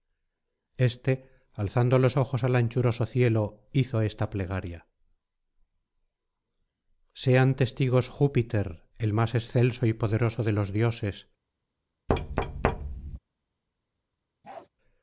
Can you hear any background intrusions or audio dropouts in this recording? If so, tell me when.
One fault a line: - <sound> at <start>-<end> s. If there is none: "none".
- thud at 12.1-13.2 s
- bark at 14.4-14.7 s